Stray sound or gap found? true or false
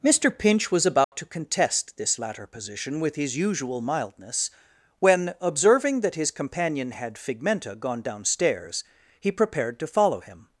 true